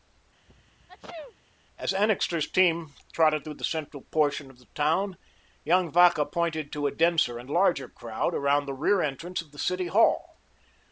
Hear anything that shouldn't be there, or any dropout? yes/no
yes